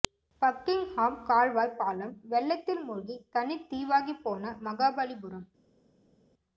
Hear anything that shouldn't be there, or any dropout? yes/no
no